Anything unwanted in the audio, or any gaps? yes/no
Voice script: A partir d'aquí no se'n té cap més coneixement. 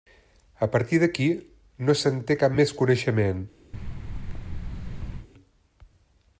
yes